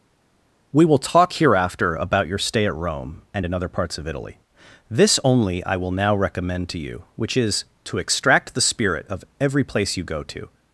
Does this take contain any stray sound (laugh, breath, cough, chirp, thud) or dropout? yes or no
no